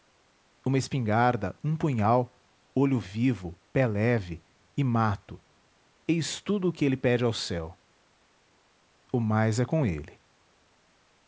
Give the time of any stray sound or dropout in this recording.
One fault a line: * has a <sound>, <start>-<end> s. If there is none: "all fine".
all fine